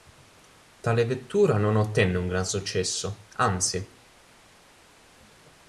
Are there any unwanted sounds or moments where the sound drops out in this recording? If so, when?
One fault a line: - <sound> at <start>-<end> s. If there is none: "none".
none